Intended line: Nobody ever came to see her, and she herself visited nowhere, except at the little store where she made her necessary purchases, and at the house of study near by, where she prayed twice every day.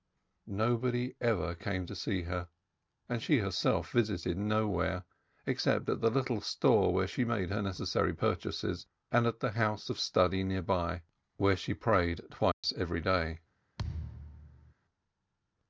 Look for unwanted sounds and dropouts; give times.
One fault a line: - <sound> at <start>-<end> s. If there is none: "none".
- dropout at 12.5-12.6 s
- thud at 13.8-14.7 s